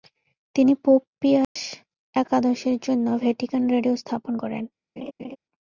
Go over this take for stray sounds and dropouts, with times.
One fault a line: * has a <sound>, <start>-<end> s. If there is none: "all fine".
* has a dropout, 1.4-1.6 s
* has a laugh, 5.0-5.4 s